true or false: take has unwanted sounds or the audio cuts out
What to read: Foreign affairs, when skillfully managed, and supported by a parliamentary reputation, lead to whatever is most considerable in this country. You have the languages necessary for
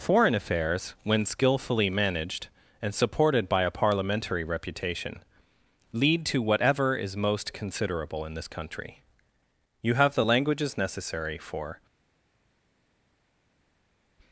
false